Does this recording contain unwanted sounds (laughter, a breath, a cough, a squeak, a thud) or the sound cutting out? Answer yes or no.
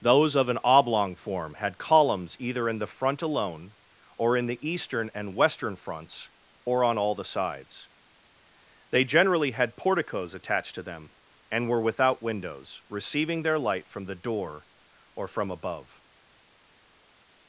no